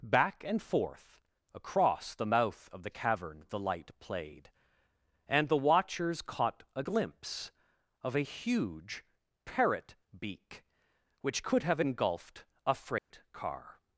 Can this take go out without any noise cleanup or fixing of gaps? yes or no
no